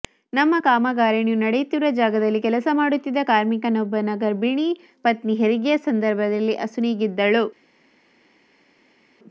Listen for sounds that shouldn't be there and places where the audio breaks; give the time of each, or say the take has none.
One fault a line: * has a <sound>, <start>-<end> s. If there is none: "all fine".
all fine